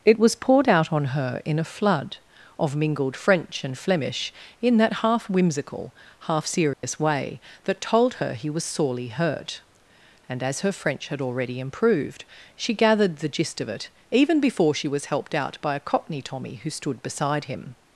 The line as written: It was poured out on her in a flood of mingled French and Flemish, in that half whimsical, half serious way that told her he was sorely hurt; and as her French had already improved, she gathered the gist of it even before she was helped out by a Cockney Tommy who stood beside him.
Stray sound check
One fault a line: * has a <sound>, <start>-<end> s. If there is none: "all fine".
* has a dropout, 6.7-6.8 s